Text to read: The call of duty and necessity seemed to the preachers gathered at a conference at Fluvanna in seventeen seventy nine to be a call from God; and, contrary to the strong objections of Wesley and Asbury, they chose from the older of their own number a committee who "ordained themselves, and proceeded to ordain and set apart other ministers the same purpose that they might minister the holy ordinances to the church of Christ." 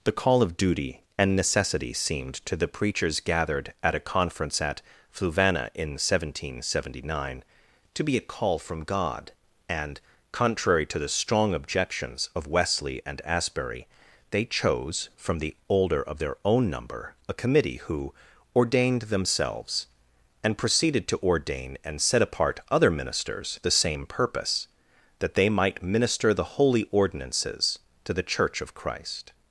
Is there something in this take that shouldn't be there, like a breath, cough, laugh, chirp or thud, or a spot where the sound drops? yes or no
no